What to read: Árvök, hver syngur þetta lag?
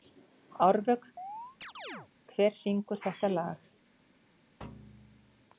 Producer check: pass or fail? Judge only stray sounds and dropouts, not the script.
fail